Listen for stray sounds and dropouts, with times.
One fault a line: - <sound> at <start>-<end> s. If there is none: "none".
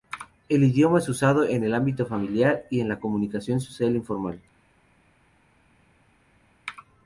none